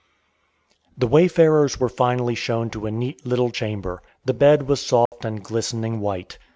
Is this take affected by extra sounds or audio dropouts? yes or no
yes